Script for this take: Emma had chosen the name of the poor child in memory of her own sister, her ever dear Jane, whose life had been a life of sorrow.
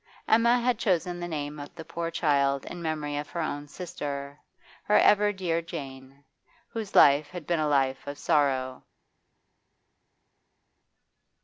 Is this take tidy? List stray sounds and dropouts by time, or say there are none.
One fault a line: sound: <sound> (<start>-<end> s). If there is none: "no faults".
no faults